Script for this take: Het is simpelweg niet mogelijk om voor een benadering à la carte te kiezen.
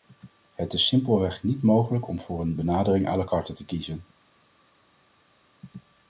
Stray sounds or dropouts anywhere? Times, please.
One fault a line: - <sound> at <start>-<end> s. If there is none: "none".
none